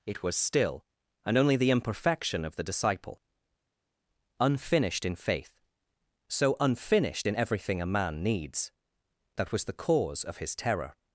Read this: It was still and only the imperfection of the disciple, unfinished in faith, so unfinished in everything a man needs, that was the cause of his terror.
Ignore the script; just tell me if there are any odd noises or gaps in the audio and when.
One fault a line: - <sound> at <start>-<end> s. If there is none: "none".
none